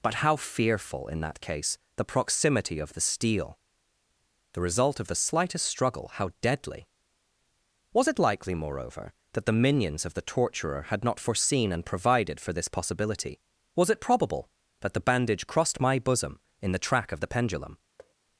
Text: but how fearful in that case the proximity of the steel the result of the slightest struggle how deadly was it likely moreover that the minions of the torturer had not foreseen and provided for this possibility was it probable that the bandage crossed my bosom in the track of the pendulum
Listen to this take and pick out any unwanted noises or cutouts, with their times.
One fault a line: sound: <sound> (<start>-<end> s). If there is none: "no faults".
sound: thud (18.0-18.2 s)